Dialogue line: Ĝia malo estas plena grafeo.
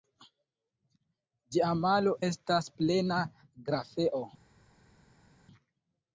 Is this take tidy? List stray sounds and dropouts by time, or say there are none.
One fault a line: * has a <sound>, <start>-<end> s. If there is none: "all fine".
all fine